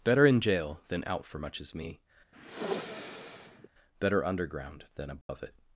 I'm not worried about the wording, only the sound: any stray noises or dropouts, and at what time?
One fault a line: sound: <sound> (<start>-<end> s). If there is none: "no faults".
sound: sniff (2.3-3.7 s)
sound: dropout (5.2-5.3 s)